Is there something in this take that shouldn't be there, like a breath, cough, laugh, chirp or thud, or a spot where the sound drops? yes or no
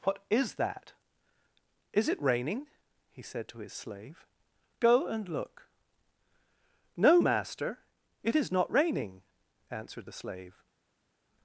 no